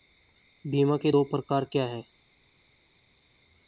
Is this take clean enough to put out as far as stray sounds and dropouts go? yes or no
yes